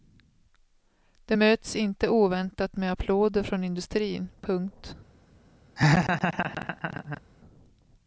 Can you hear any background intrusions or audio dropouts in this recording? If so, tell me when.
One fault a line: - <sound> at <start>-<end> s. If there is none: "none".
- laugh at 5.8-7.2 s